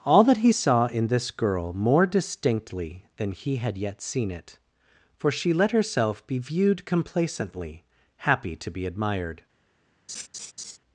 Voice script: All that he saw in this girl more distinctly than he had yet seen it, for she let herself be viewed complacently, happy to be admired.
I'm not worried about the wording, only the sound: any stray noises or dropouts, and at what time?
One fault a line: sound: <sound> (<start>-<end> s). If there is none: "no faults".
sound: laugh (10.1-10.8 s)